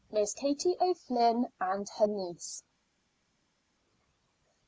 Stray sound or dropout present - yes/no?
no